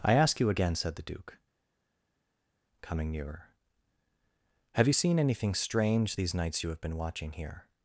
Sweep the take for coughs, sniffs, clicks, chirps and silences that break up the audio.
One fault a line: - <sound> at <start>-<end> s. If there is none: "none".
none